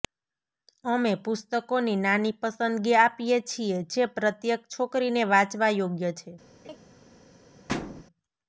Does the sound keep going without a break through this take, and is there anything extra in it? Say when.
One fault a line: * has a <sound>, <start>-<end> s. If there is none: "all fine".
* has a laugh, 6.6-6.8 s
* has a thud, 7.7-8.0 s